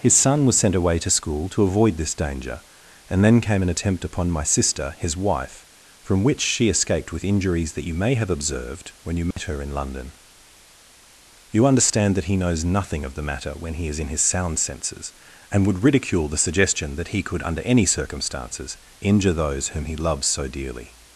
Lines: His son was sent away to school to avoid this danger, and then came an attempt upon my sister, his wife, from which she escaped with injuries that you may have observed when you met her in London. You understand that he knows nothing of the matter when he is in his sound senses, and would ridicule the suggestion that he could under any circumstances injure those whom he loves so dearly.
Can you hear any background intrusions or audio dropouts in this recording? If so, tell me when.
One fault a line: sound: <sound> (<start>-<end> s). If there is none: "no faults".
sound: dropout (9.3-9.4 s)